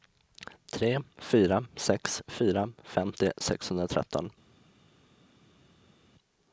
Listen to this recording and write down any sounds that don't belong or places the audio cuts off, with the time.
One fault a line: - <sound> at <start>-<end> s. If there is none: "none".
none